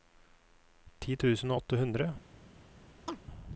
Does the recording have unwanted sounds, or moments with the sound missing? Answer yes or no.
yes